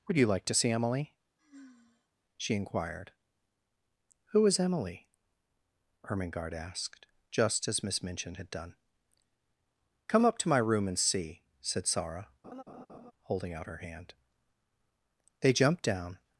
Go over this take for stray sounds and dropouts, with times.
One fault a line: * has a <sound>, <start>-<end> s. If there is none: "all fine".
* has a sigh, 1.4-2.1 s
* has a laugh, 12.4-13.1 s